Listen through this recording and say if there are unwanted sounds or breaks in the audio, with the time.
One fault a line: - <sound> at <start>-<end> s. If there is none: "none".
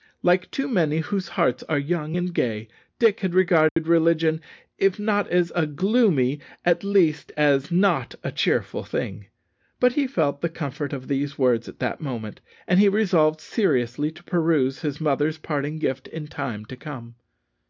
- dropout at 3.7-3.8 s